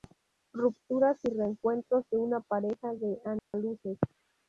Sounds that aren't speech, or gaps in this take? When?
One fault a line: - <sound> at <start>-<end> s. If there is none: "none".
- dropout at 3.4-3.5 s